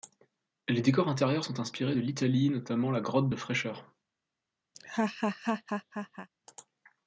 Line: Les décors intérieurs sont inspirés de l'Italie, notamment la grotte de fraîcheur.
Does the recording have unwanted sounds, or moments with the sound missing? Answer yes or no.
yes